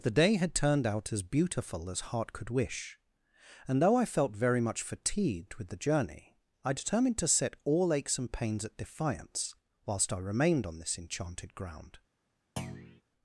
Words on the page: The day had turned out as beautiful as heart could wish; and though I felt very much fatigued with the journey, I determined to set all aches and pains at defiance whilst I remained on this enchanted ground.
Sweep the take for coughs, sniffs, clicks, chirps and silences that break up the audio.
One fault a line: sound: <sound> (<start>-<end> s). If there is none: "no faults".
sound: thud (12.6-13.0 s)